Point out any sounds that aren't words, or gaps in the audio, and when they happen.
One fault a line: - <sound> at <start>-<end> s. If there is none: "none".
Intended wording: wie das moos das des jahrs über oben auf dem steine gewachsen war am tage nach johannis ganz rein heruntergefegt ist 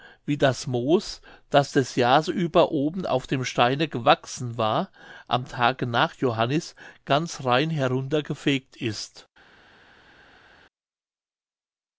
none